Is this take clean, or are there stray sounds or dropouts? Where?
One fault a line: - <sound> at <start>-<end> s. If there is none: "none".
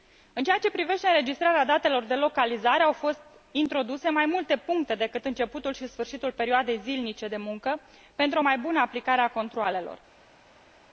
none